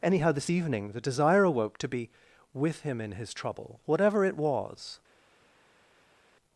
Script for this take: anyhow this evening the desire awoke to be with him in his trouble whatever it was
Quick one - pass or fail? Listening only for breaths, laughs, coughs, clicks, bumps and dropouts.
pass